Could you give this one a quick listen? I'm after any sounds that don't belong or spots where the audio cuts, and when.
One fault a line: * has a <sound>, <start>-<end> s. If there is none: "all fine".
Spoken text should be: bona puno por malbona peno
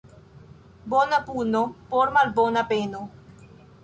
all fine